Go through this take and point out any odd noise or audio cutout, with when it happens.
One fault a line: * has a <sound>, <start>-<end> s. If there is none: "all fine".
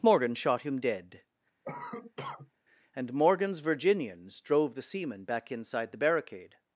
* has a cough, 1.6-2.5 s